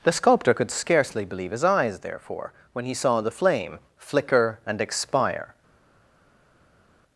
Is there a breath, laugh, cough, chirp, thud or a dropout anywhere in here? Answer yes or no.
no